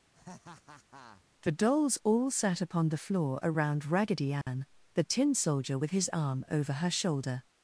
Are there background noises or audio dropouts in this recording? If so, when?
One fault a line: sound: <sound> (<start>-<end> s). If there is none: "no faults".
sound: laugh (0.1-1.2 s)
sound: dropout (4.4-4.5 s)